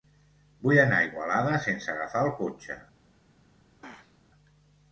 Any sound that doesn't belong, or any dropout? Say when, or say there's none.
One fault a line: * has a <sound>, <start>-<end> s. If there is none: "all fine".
* has a throat clearing, 3.8-4.2 s